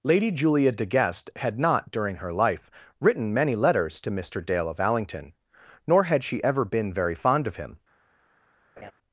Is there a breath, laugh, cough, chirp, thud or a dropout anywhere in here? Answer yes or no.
yes